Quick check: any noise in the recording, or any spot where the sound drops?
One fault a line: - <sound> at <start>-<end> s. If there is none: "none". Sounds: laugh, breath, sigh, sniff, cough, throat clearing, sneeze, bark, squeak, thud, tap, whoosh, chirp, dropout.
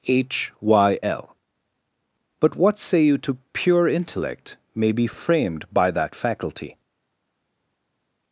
none